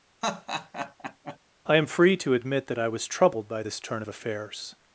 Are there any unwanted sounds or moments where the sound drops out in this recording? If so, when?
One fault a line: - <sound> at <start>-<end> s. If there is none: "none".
- laugh at 0.2-1.4 s